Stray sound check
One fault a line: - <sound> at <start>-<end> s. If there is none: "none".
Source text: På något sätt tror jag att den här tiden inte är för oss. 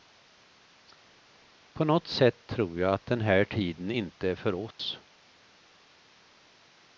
- dropout at 4.7-4.8 s